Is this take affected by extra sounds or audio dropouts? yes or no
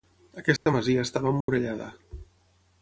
yes